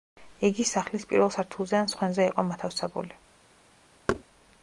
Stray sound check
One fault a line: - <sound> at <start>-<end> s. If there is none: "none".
- thud at 4.1-4.2 s